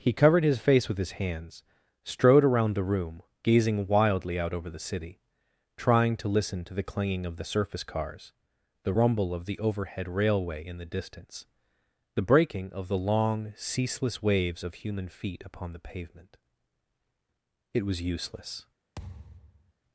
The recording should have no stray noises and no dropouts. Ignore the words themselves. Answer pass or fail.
fail